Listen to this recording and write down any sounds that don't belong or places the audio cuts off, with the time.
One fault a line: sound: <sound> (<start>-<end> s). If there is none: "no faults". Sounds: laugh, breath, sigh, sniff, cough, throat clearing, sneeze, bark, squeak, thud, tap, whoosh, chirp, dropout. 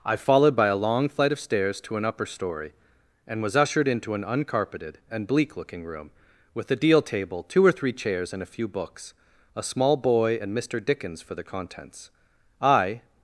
no faults